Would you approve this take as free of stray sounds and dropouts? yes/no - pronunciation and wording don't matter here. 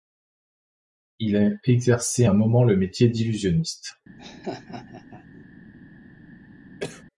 no